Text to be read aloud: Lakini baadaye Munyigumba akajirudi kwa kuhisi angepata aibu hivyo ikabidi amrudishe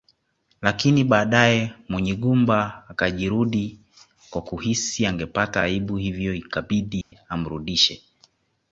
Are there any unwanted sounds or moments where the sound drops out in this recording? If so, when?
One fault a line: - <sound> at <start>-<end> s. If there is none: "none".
- dropout at 7.0-7.1 s